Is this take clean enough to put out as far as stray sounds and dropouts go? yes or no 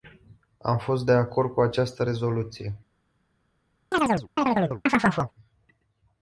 no